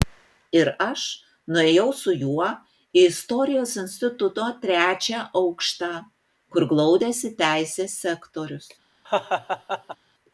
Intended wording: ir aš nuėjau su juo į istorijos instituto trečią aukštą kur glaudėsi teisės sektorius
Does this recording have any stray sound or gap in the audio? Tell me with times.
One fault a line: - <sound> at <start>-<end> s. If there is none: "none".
- laugh at 9.0-10.0 s